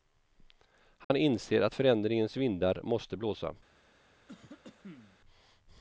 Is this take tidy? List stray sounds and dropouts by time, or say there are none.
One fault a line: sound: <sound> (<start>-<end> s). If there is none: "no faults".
sound: dropout (1.0-1.1 s)
sound: cough (4.3-5.2 s)